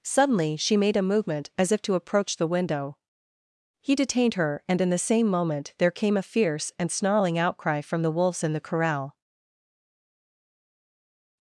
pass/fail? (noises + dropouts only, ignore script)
pass